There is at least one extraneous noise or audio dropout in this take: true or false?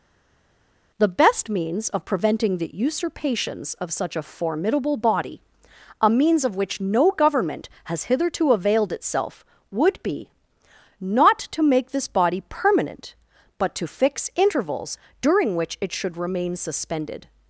false